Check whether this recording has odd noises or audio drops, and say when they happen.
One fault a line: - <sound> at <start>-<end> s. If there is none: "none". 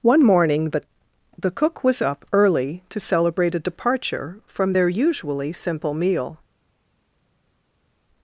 none